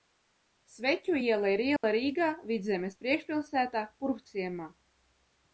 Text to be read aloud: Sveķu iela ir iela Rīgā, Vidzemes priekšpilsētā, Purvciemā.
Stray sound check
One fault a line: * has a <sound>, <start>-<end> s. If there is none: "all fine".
* has a dropout, 1.8-1.8 s